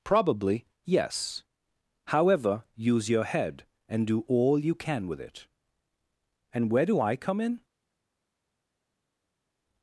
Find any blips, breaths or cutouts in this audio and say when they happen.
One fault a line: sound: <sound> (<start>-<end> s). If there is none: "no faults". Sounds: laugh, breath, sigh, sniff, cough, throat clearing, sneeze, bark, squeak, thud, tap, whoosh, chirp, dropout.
no faults